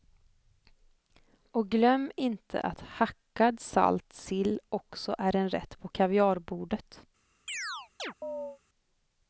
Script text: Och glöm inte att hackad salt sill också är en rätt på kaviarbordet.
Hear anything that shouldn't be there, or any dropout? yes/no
yes